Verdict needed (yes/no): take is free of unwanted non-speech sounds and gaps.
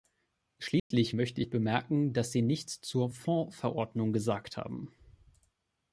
no